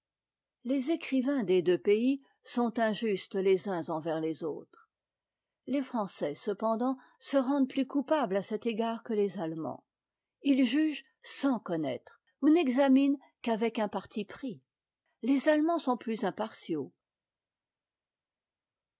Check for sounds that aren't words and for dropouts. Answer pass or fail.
pass